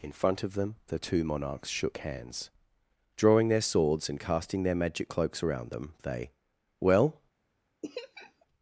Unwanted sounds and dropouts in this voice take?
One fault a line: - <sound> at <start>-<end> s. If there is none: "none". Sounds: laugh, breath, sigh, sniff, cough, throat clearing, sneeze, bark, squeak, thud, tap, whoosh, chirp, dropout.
- laugh at 7.8-8.5 s